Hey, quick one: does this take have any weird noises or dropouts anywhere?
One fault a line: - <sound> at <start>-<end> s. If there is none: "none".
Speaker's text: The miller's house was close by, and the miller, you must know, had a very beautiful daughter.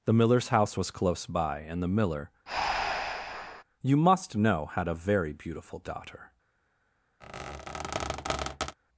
- breath at 2.5-3.6 s
- squeak at 7.2-8.8 s